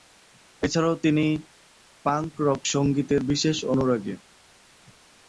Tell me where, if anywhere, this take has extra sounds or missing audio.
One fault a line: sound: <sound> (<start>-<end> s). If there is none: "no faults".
no faults